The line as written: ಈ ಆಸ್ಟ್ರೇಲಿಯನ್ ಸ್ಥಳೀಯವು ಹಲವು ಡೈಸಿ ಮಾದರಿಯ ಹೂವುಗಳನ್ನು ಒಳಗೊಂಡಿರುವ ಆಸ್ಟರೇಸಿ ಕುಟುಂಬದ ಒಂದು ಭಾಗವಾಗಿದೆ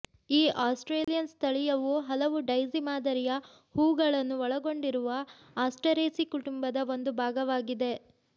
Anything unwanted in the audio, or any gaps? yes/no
yes